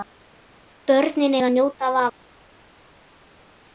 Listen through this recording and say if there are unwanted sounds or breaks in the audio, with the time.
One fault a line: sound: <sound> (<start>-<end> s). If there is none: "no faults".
no faults